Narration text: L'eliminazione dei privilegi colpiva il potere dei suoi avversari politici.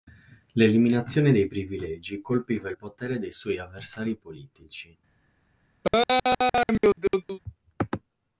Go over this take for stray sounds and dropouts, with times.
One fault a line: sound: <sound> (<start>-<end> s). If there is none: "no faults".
sound: laugh (5.8-7.4 s)